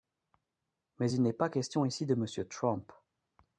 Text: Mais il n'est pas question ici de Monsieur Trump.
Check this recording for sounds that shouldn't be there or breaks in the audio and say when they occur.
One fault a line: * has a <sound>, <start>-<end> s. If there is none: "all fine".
all fine